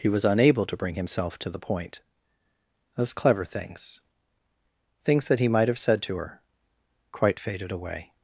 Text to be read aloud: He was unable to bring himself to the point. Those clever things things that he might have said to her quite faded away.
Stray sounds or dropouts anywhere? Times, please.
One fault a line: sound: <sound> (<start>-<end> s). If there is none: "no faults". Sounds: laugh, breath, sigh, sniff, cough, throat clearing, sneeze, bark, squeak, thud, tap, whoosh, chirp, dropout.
no faults